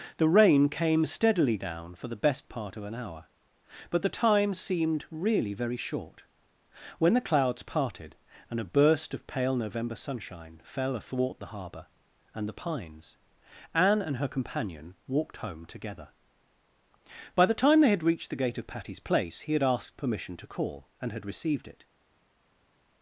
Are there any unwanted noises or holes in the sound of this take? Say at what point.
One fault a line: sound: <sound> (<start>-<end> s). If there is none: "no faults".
no faults